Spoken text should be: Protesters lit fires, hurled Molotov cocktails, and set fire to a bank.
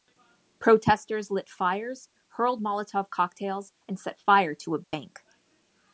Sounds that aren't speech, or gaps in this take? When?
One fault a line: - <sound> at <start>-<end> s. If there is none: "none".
- dropout at 4.8-4.9 s